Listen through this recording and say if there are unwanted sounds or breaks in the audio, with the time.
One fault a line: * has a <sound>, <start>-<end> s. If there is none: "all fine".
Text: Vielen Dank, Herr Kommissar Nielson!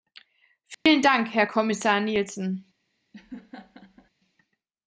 * has a dropout, 0.7-0.9 s
* has a laugh, 3.1-4.1 s